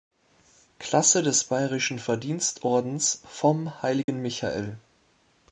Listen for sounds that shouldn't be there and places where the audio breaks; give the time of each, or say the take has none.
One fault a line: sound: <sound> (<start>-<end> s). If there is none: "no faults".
sound: dropout (4.0-4.1 s)